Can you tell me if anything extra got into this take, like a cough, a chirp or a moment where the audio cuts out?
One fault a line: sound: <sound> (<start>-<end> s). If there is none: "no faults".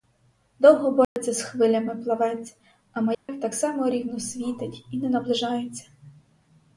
sound: dropout (1.0-1.2 s)
sound: dropout (3.1-3.3 s)